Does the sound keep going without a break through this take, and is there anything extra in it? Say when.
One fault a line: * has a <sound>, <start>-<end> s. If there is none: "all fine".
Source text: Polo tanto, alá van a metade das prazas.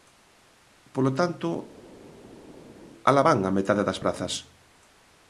all fine